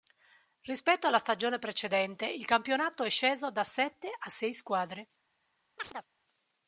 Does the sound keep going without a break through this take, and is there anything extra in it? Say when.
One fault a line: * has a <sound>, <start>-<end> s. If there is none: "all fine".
* has a chirp, 5.8-6.1 s